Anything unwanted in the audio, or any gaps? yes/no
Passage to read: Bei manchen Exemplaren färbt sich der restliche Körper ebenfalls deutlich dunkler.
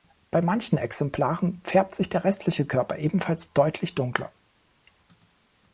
no